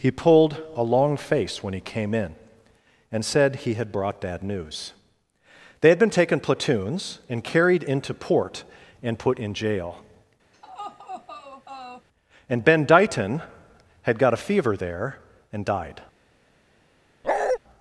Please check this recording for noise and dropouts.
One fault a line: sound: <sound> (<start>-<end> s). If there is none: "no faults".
sound: laugh (10.5-12.1 s)
sound: bark (17.2-17.6 s)